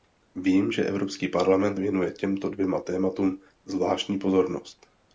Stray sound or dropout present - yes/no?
no